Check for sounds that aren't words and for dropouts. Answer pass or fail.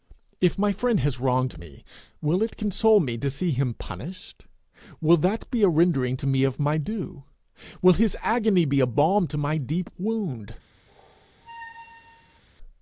fail